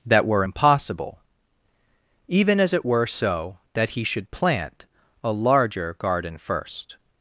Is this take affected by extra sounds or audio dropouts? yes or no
no